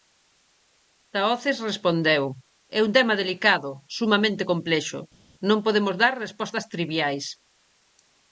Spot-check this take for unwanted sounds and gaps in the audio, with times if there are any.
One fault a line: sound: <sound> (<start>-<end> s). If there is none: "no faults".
no faults